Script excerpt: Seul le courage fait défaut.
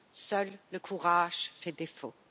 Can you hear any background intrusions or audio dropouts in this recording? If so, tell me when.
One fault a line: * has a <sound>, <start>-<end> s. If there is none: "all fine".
all fine